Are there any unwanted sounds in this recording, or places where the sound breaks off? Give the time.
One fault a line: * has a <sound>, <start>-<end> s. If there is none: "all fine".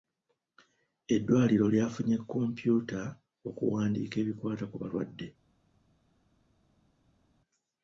all fine